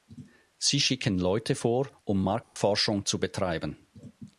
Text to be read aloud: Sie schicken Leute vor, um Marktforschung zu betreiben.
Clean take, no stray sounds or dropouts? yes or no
no